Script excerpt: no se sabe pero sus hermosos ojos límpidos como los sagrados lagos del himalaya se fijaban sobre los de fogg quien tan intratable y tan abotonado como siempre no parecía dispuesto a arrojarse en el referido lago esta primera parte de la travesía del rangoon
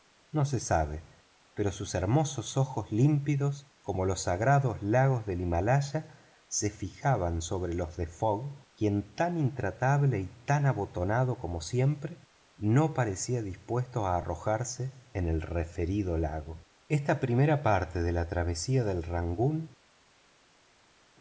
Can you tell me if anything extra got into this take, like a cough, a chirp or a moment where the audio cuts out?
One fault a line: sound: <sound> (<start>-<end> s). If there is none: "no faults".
no faults